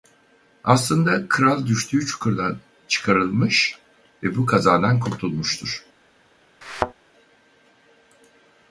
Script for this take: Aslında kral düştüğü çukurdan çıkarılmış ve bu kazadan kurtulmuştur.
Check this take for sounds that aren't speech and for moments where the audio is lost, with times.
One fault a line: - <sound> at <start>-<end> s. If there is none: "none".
- thud at 6.6-6.9 s